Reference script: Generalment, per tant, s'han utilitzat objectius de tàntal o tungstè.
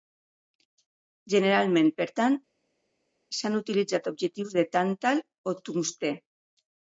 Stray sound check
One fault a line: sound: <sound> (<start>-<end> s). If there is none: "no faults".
no faults